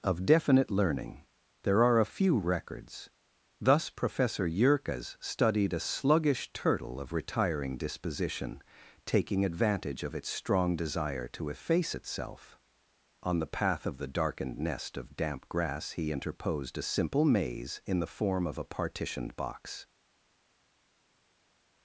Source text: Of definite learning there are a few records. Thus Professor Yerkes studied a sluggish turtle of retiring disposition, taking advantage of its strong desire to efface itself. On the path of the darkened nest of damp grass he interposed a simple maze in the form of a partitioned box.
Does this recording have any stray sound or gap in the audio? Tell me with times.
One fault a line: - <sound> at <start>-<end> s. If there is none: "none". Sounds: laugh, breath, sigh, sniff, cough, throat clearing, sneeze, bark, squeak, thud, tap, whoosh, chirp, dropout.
none